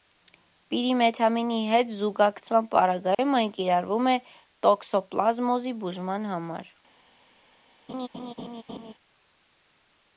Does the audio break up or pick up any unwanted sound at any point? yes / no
yes